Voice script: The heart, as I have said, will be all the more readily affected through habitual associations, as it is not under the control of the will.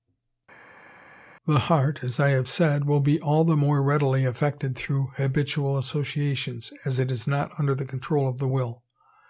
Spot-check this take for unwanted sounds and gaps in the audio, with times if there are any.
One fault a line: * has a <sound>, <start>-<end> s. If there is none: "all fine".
all fine